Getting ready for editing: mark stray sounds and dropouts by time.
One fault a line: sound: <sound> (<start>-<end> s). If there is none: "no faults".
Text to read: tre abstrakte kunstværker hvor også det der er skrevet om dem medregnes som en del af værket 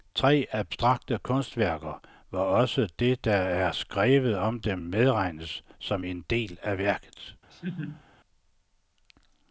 sound: laugh (7.5-8.0 s)